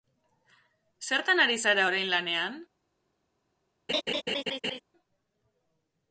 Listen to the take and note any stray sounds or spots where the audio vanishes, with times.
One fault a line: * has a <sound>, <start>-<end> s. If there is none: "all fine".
* has a laugh, 3.9-4.8 s